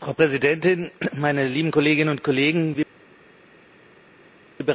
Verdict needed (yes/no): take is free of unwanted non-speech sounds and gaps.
yes